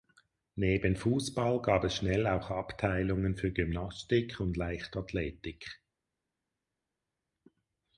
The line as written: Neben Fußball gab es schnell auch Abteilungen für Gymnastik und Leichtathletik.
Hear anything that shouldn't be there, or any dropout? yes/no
no